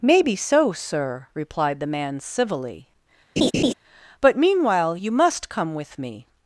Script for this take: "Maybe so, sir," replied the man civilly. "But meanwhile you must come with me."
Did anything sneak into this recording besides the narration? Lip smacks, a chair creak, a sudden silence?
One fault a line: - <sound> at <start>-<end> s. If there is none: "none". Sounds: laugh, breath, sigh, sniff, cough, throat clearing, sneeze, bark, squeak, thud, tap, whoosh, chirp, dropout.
- laugh at 3.4-3.7 s